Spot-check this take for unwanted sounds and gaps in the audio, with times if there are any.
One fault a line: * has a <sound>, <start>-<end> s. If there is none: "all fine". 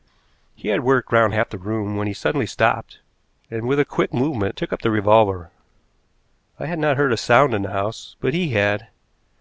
all fine